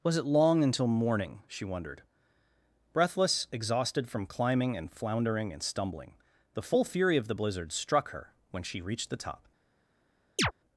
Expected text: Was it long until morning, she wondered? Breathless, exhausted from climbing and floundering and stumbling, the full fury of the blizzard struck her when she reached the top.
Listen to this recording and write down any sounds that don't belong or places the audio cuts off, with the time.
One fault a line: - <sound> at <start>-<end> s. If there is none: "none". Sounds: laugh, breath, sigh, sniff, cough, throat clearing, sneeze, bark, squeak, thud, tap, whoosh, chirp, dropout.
- chirp at 10.4-10.5 s